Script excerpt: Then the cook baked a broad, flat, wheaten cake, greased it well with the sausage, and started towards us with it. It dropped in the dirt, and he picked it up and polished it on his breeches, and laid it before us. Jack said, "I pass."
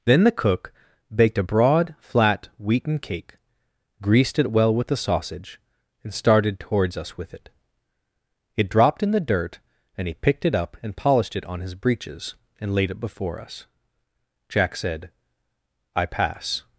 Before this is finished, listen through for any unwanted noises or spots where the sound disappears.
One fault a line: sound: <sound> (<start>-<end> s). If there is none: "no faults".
no faults